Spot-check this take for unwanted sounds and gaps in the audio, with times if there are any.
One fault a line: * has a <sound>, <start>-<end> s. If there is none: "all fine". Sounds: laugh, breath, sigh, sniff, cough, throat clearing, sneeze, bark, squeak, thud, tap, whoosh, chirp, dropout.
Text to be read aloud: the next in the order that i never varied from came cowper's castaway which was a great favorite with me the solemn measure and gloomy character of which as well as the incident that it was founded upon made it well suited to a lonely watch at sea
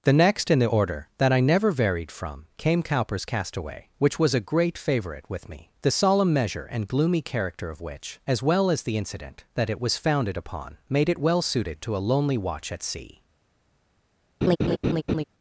* has a laugh, 14.4-15.2 s